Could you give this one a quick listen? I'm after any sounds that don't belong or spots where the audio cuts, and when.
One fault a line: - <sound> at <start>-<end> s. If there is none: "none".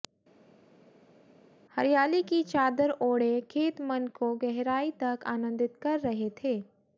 none